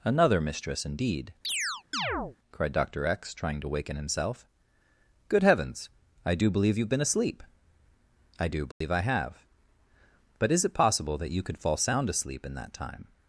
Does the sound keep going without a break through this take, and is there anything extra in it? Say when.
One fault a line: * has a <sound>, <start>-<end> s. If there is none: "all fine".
* has a chirp, 1.4-2.4 s
* has a dropout, 8.7-8.8 s